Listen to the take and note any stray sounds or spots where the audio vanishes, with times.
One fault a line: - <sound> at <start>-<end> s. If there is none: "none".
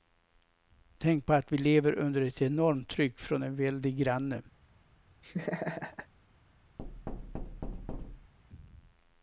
- laugh at 5.2-6.1 s
- thud at 6.8-8.3 s